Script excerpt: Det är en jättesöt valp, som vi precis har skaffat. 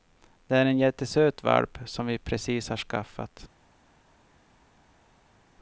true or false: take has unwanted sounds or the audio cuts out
false